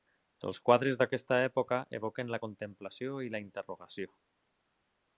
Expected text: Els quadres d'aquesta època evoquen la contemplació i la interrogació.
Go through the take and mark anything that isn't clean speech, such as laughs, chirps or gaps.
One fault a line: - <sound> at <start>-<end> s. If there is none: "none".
none